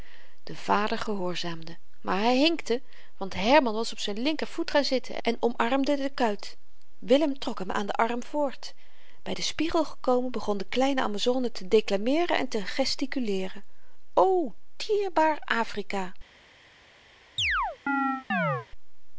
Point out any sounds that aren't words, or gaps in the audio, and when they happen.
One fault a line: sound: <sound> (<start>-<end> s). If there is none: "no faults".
sound: chirp (17.4-18.7 s)